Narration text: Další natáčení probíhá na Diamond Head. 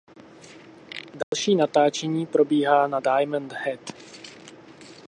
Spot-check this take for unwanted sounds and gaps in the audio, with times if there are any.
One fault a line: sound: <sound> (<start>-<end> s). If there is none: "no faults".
sound: dropout (1.2-1.3 s)